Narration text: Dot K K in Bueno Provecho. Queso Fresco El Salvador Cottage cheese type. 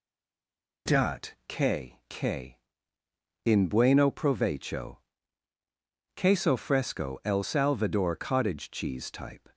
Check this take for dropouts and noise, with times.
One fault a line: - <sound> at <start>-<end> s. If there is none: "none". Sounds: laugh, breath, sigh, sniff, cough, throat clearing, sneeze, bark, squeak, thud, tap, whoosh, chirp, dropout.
none